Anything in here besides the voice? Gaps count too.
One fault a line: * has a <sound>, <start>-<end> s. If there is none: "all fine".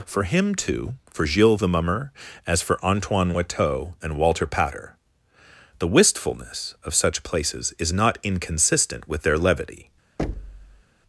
* has a thud, 10.2-10.8 s